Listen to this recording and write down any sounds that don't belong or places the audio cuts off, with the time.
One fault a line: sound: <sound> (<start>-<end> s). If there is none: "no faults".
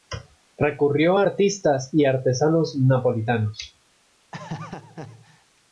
sound: laugh (4.3-5.5 s)